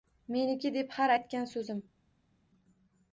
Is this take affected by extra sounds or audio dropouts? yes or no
no